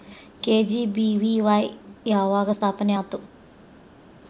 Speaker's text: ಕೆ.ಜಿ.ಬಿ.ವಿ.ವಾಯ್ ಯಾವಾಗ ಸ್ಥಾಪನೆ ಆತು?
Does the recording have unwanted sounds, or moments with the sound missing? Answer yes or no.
no